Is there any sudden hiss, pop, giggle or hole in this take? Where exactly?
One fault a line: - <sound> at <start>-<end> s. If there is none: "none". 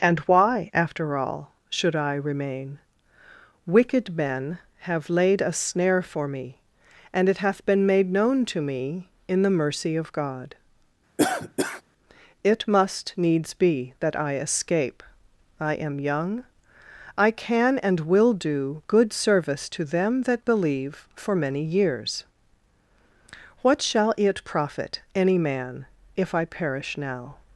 - cough at 11.2-11.8 s